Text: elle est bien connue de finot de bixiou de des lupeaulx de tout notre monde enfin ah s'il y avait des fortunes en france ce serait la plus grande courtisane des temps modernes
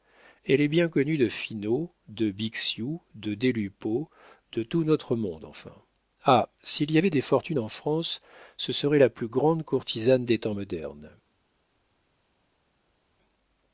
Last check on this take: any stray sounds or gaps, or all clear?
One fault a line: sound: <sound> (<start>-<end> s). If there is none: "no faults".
no faults